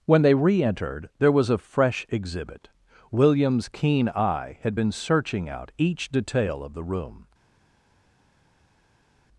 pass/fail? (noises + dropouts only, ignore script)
pass